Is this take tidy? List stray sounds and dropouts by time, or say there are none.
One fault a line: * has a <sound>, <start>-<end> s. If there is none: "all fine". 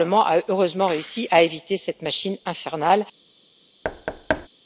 * has a thud, 3.8-4.5 s